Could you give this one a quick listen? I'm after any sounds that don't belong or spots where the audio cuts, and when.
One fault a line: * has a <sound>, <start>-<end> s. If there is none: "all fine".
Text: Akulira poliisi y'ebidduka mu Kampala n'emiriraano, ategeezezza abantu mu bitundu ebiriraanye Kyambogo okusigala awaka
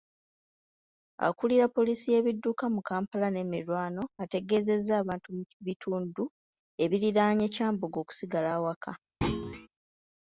* has a thud, 9.2-9.7 s